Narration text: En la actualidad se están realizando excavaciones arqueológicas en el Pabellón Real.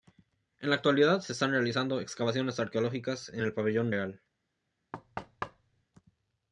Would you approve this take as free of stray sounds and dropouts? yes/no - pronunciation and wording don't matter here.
no